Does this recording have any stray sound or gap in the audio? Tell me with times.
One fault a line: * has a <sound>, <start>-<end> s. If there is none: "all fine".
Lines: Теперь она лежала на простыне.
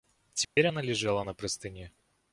* has a dropout, 0.4-0.6 s